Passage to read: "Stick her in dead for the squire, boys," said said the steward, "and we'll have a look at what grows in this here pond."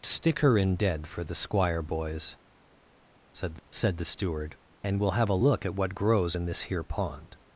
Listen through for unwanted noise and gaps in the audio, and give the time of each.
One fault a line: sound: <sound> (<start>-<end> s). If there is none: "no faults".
no faults